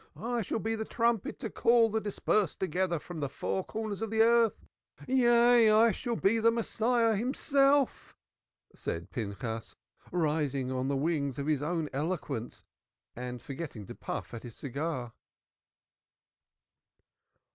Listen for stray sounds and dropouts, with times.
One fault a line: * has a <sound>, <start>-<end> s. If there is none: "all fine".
all fine